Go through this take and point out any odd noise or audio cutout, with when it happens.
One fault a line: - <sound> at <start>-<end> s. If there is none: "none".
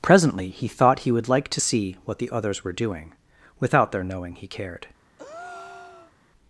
- breath at 5.2-6.1 s